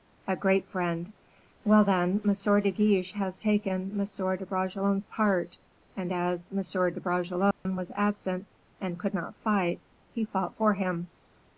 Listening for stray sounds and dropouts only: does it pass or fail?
fail